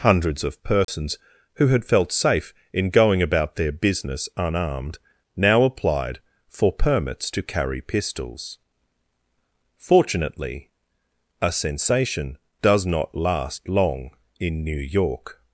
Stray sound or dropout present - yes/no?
yes